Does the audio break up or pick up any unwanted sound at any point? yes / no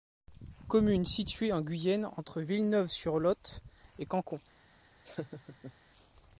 yes